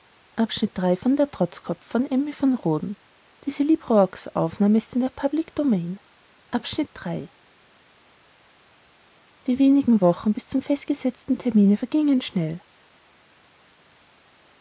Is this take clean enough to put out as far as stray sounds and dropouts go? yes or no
yes